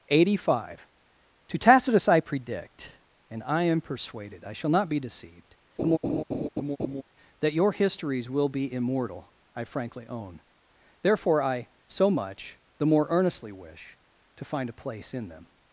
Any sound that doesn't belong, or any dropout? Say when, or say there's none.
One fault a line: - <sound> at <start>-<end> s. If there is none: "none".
- laugh at 5.8-7.0 s